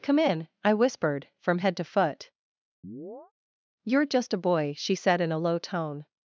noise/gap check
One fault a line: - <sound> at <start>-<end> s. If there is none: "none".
- chirp at 2.8-3.3 s